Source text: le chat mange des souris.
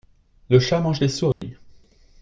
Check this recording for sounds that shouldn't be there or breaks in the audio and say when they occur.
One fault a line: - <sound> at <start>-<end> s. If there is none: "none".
- dropout at 1.3-1.4 s